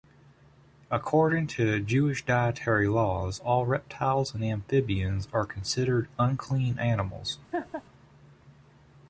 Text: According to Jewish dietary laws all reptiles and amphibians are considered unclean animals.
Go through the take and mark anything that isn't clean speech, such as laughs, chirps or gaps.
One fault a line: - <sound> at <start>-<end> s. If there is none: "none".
- laugh at 7.5-7.8 s